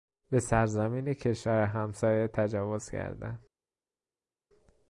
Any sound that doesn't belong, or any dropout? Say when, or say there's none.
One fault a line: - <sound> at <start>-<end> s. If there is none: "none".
none